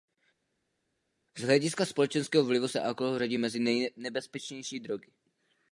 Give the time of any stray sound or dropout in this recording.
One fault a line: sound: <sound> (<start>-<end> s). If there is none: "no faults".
no faults